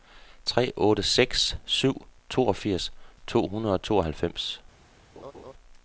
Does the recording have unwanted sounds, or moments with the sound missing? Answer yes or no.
yes